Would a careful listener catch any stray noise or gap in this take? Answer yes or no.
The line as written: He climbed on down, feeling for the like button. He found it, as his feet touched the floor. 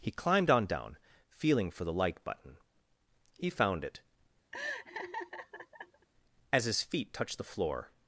yes